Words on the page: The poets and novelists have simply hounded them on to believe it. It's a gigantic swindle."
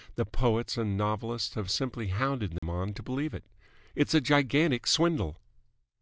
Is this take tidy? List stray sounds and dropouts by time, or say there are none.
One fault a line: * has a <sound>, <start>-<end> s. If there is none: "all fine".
* has a dropout, 2.6-2.6 s